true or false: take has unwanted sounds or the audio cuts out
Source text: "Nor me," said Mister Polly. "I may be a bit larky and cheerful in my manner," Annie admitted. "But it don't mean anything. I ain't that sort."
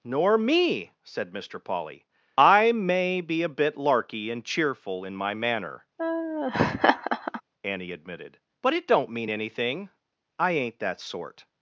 true